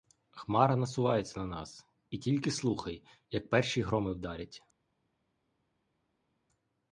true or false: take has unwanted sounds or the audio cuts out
false